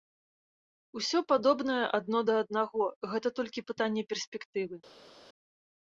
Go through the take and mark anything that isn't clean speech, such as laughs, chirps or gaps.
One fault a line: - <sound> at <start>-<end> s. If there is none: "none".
none